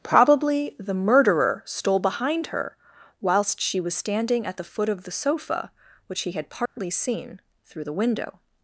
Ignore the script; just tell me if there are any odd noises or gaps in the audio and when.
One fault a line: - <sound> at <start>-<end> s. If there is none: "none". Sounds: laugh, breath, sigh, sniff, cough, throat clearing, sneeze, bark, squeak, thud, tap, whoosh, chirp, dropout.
- dropout at 6.7-6.8 s